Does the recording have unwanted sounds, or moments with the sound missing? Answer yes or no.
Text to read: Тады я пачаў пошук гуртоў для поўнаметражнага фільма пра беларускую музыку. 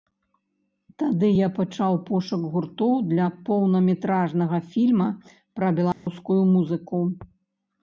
yes